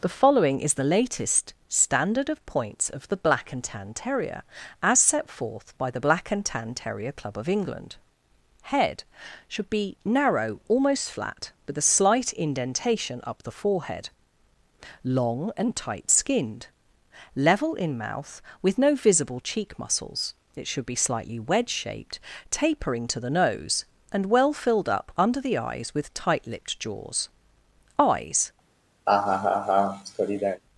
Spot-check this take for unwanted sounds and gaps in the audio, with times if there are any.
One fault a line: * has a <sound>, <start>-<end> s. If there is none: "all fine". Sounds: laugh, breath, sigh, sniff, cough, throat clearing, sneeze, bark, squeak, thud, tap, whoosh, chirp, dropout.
* has a laugh, 29.1-30.6 s